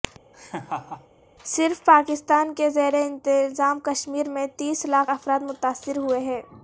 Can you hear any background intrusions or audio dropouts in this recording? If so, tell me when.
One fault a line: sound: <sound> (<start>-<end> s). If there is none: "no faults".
sound: laugh (0.3-1.1 s)